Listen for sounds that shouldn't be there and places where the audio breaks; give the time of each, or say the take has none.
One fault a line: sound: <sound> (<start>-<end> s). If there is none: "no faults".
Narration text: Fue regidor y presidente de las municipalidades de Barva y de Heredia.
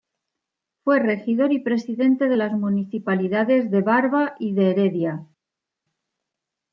no faults